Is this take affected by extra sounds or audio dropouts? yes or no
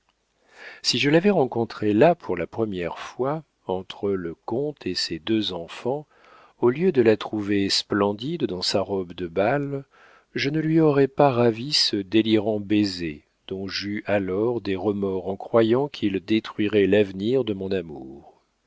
no